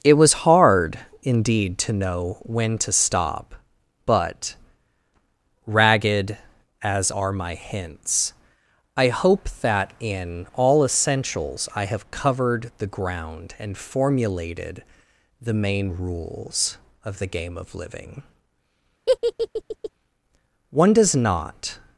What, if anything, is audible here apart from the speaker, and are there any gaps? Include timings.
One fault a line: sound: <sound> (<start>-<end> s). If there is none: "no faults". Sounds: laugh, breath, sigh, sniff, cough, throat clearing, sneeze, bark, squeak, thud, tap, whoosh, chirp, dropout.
sound: laugh (19.1-19.9 s)